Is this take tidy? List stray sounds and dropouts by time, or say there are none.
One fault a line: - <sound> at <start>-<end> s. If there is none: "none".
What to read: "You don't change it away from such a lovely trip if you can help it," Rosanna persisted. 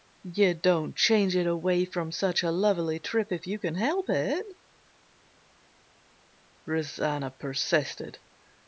none